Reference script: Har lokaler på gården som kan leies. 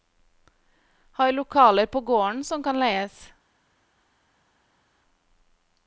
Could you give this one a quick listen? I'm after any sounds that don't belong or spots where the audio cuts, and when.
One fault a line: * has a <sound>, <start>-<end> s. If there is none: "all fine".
all fine